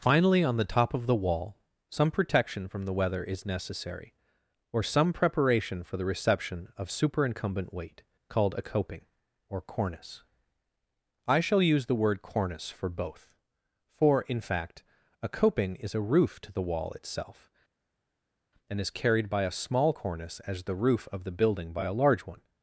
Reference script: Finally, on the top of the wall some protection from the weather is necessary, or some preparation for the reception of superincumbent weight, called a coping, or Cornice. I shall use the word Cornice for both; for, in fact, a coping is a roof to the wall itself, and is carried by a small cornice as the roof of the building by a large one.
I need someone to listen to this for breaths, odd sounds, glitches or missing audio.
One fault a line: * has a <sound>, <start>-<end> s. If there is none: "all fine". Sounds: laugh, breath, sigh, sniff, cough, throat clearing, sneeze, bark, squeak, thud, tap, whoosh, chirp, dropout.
all fine